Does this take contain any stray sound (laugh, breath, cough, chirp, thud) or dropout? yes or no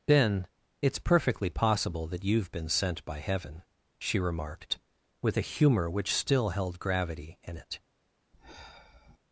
yes